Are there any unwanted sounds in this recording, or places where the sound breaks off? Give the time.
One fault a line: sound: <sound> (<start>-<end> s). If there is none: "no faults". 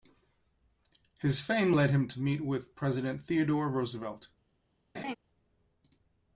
sound: laugh (4.9-5.2 s)